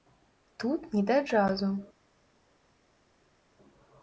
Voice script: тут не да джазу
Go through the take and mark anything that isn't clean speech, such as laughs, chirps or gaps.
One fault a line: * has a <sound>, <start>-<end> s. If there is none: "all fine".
all fine